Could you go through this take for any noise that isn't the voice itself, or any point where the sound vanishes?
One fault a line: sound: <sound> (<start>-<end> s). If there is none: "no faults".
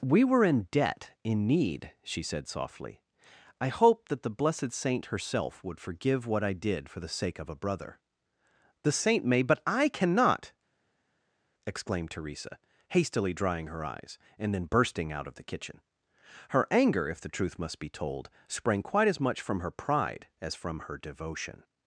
no faults